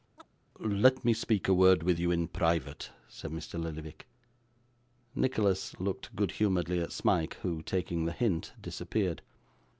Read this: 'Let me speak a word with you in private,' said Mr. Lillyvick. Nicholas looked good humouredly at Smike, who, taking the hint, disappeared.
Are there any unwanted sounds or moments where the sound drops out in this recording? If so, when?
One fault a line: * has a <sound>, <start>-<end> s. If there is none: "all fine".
* has a chirp, 0.2-0.3 s